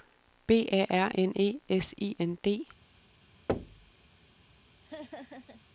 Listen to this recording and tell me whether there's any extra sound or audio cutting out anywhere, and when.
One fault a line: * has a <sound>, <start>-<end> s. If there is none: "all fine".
* has a thud, 3.5-3.9 s
* has a laugh, 4.8-5.7 s